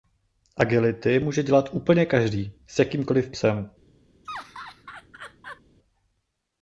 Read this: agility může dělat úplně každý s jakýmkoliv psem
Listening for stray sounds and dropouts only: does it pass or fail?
fail